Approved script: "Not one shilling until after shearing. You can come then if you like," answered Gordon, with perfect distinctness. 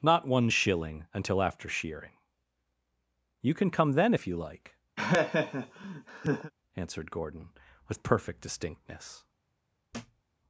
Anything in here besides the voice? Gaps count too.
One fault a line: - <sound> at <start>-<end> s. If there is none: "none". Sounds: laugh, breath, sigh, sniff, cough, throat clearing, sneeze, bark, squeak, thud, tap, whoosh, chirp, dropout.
- laugh at 5.0-6.5 s
- thud at 9.9-10.2 s